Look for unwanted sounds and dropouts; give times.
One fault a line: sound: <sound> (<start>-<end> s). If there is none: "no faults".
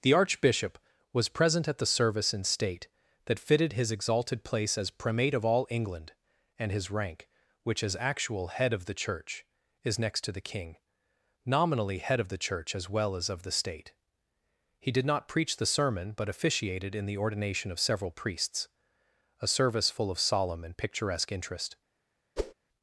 sound: whoosh (22.4-22.5 s)